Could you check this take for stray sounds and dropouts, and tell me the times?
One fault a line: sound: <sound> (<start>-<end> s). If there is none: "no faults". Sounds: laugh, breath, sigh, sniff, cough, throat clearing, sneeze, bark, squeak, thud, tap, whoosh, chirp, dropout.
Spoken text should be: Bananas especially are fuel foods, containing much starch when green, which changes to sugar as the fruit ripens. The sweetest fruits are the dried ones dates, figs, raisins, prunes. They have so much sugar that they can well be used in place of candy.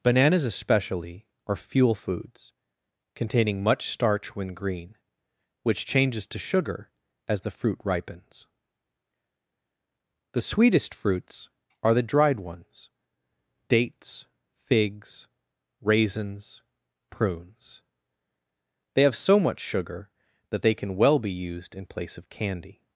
no faults